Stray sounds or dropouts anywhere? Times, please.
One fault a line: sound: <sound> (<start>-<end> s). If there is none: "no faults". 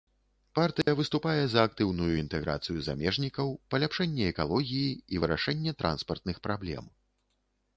sound: dropout (0.8-0.9 s)